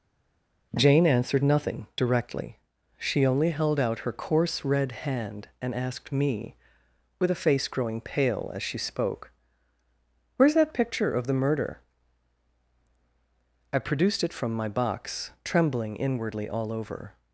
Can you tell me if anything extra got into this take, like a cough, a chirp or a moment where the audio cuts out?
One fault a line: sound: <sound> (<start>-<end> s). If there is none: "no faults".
no faults